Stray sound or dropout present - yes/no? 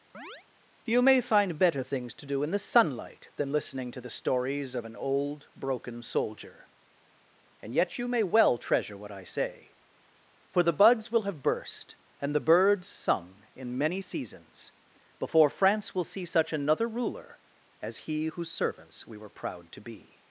yes